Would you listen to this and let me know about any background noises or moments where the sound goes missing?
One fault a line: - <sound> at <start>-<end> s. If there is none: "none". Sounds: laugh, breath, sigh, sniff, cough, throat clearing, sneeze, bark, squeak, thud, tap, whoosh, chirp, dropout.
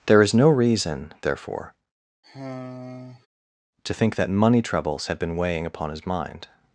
- sigh at 2.2-3.3 s